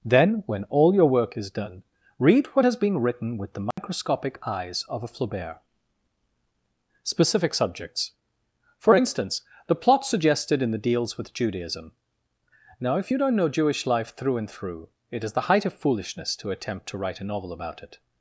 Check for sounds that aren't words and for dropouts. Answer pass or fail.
fail